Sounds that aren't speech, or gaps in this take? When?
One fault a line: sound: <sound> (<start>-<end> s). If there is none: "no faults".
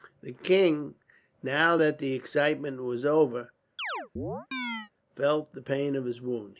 sound: chirp (3.8-4.9 s)